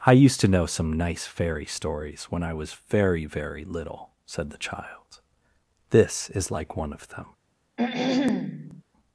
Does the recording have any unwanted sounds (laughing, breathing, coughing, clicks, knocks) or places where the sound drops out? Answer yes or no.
yes